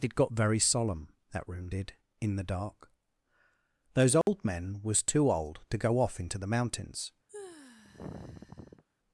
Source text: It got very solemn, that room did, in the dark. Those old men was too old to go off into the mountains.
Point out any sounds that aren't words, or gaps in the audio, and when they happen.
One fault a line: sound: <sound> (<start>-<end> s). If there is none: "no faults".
sound: dropout (4.2-4.3 s)
sound: sigh (7.3-8.8 s)